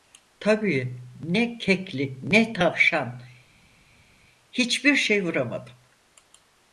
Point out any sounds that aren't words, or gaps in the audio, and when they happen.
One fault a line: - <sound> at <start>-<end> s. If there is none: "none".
none